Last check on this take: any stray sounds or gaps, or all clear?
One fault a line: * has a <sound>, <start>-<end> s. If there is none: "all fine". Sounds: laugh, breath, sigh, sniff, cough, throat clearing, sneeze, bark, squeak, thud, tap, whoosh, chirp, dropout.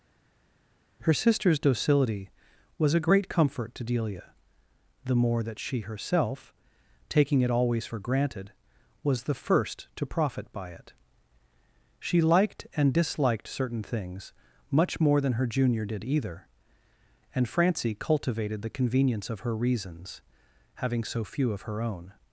all fine